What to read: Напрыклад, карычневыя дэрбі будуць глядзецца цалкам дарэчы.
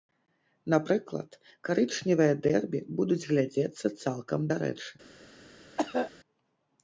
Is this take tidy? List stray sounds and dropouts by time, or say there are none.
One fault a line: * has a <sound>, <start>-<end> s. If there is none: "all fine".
* has a cough, 5.8-6.1 s